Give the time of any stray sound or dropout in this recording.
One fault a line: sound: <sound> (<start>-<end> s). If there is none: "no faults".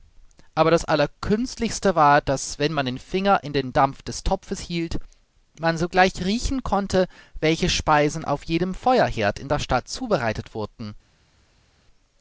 no faults